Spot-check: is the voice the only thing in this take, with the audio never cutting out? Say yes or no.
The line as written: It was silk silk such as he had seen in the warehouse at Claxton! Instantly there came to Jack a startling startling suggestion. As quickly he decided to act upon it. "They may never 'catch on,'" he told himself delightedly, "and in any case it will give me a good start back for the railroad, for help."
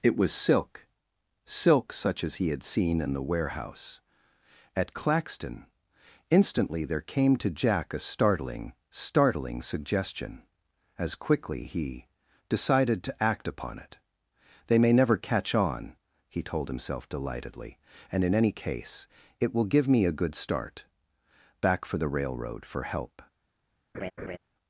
no